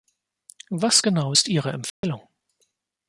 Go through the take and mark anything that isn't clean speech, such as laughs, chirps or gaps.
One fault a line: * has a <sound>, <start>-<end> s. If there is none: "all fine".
* has a dropout, 1.9-2.0 s